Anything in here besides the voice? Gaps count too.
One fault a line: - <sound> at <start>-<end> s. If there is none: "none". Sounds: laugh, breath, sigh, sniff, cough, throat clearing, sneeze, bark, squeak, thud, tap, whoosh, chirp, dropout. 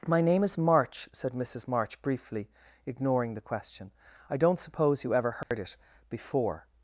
- dropout at 5.4-5.5 s